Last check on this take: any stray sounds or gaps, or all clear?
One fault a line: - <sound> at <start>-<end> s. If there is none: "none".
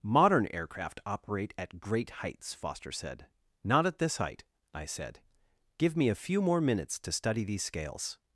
none